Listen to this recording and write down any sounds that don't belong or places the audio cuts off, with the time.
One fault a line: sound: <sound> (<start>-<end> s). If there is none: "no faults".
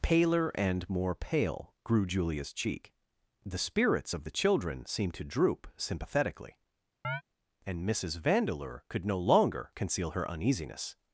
sound: chirp (7.0-7.2 s)